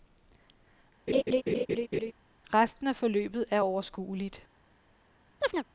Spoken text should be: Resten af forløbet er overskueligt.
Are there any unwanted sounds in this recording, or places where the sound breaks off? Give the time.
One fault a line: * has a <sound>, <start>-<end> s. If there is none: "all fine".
* has a laugh, 1.1-2.1 s
* has a chirp, 5.4-5.7 s